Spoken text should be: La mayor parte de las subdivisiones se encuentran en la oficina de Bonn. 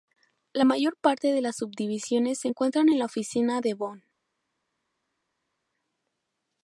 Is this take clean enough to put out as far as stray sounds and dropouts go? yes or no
yes